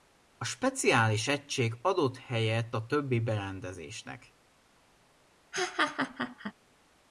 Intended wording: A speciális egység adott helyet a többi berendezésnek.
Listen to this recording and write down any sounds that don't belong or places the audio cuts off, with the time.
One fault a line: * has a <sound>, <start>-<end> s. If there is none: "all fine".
* has a laugh, 5.5-6.5 s